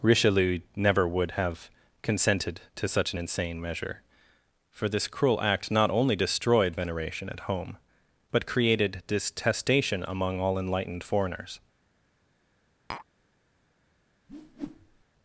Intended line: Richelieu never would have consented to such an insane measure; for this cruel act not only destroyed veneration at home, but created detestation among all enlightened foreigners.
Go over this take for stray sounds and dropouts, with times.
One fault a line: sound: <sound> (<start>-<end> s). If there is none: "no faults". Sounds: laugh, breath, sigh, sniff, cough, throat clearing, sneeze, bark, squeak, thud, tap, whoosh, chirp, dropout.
sound: tap (12.9-13.1 s)
sound: whoosh (14.3-15.0 s)